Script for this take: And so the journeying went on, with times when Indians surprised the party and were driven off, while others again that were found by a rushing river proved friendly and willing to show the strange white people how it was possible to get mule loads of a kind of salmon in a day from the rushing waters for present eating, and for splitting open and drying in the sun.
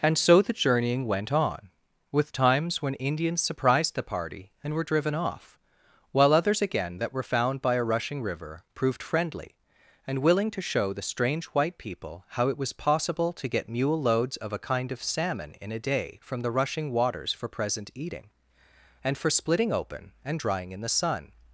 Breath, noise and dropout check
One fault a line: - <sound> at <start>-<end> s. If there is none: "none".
none